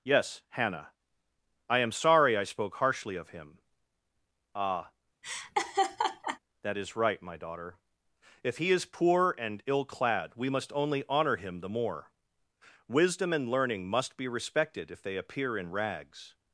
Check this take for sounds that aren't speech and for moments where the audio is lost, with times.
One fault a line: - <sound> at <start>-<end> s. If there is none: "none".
- laugh at 5.2-6.4 s